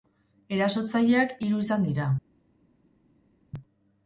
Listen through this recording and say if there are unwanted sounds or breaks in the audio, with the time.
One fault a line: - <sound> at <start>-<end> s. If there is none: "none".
none